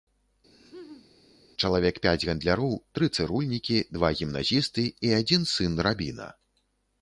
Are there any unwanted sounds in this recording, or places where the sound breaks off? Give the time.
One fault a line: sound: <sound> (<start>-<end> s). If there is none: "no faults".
sound: laugh (0.5-1.1 s)